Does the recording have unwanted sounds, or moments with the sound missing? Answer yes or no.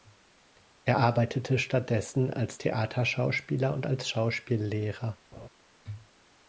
yes